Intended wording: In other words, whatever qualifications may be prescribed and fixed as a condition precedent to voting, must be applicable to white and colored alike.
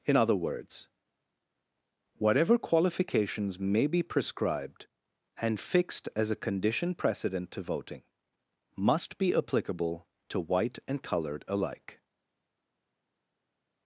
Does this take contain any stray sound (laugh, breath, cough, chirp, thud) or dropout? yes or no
no